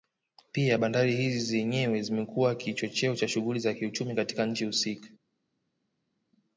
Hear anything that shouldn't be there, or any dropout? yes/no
no